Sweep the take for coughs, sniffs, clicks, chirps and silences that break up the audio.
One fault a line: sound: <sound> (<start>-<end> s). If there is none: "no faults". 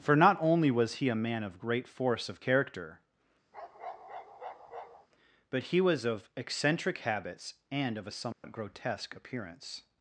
sound: bark (3.5-5.1 s)
sound: dropout (8.3-8.4 s)